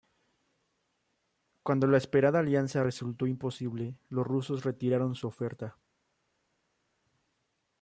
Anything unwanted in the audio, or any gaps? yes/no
no